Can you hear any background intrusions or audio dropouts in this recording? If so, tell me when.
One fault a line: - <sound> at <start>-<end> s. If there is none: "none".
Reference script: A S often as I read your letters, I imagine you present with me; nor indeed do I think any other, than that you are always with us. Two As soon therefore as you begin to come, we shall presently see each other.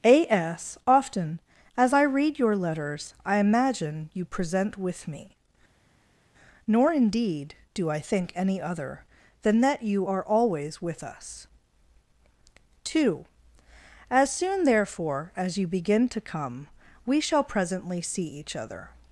none